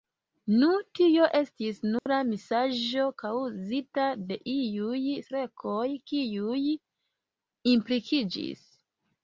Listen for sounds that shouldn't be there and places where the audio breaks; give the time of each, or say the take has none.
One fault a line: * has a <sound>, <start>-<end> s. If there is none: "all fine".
* has a dropout, 2.0-2.1 s